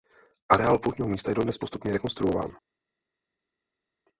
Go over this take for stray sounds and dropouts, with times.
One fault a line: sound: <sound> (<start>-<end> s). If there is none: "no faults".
no faults